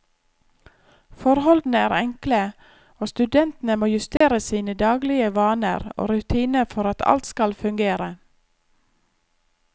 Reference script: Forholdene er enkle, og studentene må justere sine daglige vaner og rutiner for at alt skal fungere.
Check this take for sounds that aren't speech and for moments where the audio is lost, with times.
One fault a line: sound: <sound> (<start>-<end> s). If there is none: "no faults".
sound: dropout (4.2-4.2 s)